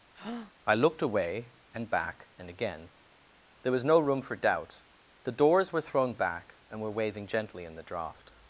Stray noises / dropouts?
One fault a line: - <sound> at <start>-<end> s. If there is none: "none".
- breath at 0.1-0.5 s